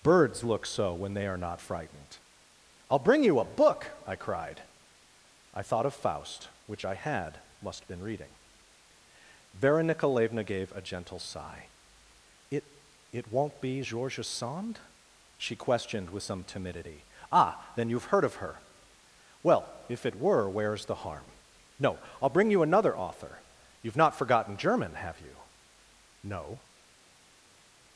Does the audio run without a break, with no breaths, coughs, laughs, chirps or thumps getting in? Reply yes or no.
yes